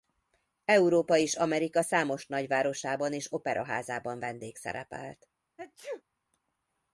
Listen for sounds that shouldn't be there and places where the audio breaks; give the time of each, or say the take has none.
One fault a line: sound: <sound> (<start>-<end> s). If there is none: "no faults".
sound: sneeze (5.6-6.0 s)